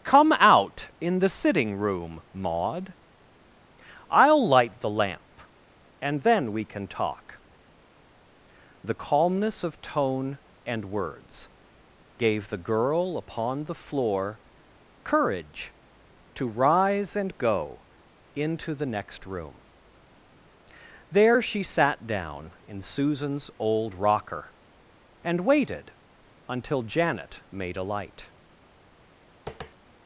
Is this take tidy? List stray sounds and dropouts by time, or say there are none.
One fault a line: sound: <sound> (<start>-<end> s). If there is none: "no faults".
sound: tap (29.5-29.7 s)